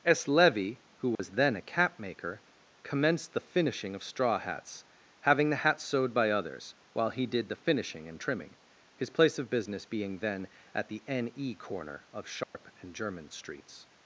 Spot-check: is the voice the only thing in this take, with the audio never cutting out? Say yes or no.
no